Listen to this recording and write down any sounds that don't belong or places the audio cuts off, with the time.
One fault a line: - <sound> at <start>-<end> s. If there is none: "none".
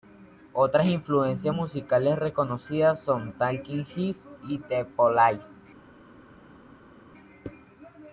none